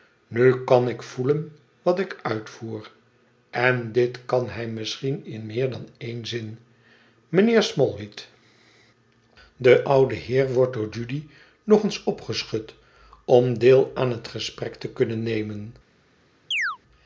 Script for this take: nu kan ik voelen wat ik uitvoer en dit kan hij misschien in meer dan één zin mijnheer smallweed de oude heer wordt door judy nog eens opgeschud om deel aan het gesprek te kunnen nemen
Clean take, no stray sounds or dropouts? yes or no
no